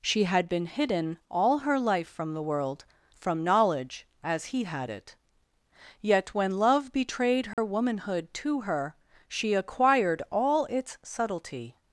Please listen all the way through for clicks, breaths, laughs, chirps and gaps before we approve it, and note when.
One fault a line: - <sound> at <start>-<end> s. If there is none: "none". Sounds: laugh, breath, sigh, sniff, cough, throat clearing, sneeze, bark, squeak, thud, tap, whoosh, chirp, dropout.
- dropout at 7.5-7.6 s